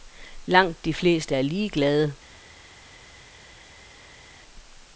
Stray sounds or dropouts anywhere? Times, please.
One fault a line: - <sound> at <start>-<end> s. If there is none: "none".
none